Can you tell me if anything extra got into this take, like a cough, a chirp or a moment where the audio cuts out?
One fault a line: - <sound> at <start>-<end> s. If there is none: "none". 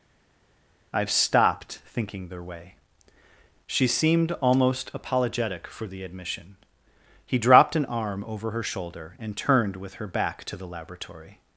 none